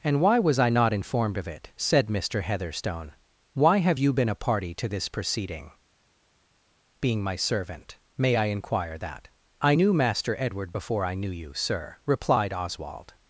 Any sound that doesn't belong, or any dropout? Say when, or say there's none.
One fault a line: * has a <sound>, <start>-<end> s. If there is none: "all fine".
all fine